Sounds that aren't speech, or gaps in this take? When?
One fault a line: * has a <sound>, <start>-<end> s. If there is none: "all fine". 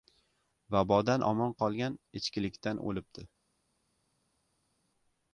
all fine